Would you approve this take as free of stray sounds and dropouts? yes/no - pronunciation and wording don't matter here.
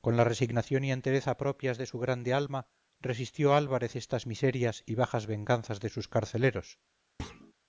no